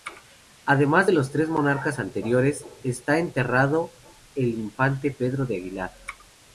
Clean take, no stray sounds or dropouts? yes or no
yes